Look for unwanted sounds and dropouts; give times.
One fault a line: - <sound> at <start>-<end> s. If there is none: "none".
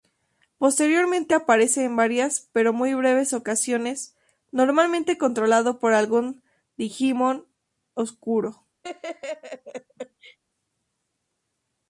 - laugh at 8.8-10.4 s